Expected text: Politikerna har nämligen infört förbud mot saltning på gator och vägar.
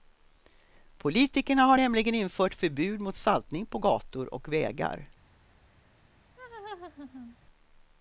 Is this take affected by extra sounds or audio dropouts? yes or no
yes